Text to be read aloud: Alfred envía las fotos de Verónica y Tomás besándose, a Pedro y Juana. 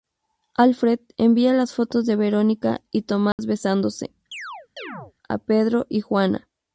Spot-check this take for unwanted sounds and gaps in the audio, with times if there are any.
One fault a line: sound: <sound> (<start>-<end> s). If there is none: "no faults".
sound: dropout (3.3-3.4 s)
sound: chirp (4.3-5.1 s)